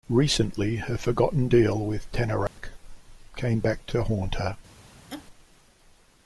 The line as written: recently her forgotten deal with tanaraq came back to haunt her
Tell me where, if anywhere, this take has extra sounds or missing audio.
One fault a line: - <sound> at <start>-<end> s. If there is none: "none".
- dropout at 2.5-2.6 s
- laugh at 5.1-5.3 s